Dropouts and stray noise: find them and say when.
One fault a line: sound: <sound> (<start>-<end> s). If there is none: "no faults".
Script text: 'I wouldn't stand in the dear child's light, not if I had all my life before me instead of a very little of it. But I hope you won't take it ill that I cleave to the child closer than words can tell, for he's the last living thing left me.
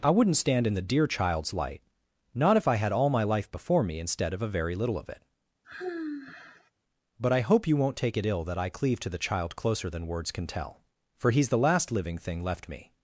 sound: sigh (5.6-6.7 s)